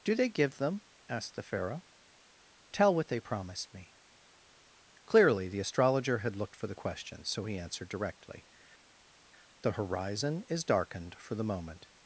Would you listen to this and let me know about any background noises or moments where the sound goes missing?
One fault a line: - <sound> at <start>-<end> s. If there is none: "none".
none